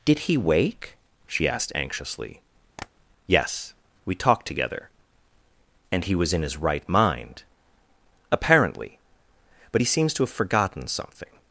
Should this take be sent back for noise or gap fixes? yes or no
yes